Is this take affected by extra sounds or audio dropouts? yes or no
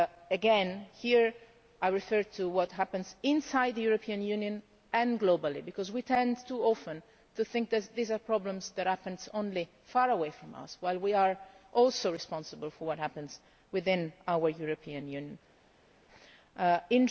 no